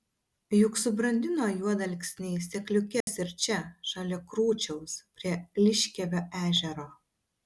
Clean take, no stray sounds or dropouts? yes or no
no